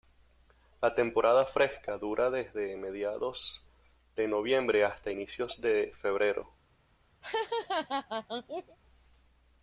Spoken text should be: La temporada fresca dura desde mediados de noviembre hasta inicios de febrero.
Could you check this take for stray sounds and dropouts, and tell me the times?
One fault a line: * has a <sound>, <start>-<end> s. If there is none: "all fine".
* has a laugh, 7.2-8.8 s